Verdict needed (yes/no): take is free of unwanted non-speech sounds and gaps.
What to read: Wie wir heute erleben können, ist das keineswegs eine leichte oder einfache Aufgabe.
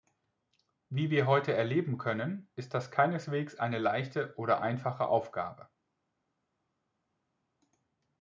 yes